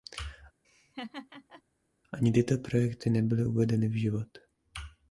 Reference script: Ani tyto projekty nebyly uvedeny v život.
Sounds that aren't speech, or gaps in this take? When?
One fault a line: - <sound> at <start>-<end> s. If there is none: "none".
- laugh at 0.6-1.6 s